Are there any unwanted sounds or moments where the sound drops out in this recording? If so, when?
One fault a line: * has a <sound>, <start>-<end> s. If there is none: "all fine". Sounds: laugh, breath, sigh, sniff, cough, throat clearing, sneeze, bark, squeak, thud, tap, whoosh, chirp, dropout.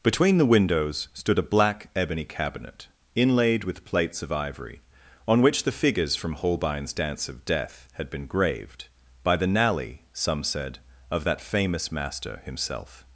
all fine